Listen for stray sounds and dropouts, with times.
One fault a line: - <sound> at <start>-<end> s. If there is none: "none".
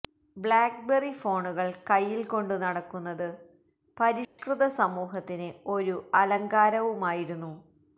- dropout at 4.2-4.4 s